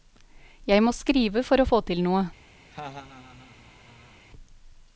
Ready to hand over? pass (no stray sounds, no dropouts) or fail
fail